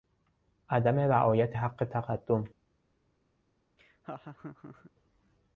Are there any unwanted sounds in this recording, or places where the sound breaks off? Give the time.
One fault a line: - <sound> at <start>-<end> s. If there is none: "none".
- laugh at 3.8-4.9 s